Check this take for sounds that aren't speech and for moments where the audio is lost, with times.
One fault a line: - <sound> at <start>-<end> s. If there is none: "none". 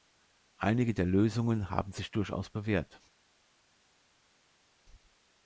none